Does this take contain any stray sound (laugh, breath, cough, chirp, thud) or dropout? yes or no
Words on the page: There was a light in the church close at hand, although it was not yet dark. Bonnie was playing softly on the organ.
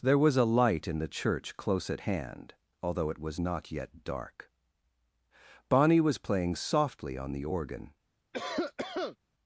yes